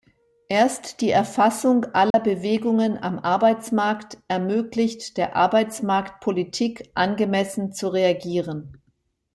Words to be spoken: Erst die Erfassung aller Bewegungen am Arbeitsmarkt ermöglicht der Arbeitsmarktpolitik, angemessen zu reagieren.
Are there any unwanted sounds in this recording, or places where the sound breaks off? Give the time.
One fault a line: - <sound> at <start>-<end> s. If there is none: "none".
- dropout at 2.1-2.1 s